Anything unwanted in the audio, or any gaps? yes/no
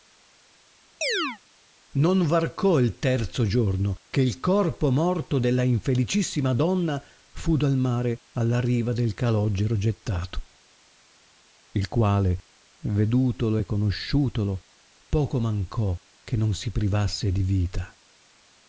yes